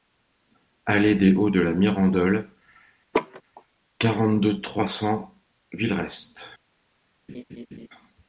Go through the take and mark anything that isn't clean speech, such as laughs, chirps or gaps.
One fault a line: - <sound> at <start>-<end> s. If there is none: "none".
- laugh at 3.1-3.4 s
- laugh at 7.3-7.9 s